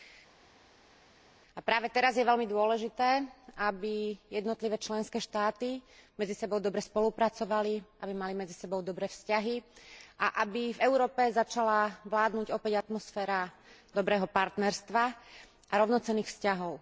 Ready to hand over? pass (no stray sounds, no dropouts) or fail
pass